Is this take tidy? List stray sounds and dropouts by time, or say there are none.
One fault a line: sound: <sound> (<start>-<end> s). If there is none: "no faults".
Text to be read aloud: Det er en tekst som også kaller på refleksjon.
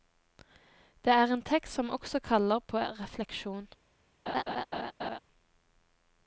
sound: laugh (4.3-5.2 s)